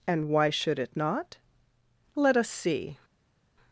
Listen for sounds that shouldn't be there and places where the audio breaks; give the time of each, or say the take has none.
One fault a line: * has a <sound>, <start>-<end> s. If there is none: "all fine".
all fine